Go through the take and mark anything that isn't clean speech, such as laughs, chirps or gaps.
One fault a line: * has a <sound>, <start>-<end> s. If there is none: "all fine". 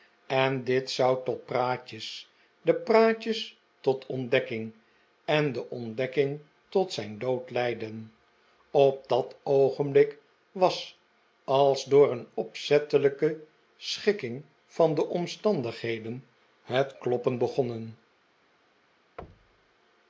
* has a thud, 19.2-19.8 s